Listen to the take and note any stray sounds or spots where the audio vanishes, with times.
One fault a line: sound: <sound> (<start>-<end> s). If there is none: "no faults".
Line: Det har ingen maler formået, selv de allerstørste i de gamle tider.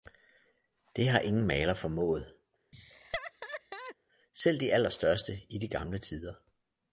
sound: laugh (2.7-4.0 s)